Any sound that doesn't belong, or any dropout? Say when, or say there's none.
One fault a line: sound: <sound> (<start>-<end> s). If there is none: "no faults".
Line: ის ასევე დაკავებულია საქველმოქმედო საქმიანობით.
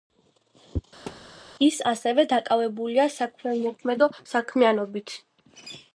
sound: thud (1.1-1.4 s)